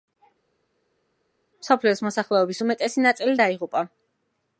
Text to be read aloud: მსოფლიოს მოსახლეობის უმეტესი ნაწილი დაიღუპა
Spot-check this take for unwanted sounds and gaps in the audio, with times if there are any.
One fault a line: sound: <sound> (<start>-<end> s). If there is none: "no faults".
no faults